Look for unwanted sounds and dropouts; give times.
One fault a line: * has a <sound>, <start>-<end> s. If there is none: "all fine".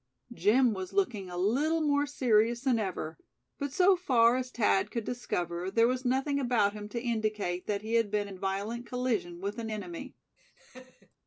* has a laugh, 10.4-11.2 s